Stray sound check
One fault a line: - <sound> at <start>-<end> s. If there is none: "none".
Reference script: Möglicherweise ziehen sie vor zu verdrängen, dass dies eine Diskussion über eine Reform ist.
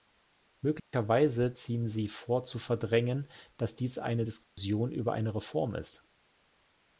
- dropout at 0.8-0.9 s
- dropout at 4.4-4.6 s